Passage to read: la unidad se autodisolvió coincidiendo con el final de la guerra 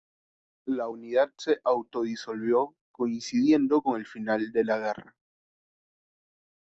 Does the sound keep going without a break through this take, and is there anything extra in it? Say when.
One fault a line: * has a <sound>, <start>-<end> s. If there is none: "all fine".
all fine